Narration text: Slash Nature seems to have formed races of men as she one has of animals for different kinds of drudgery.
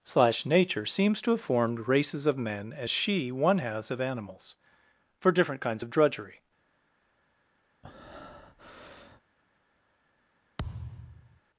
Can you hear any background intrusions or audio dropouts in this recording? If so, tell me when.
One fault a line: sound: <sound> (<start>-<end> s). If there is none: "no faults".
sound: breath (7.8-9.2 s)
sound: thud (10.6-11.4 s)